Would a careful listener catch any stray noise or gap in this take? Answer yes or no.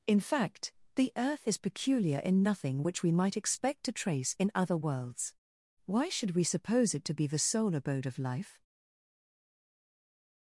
no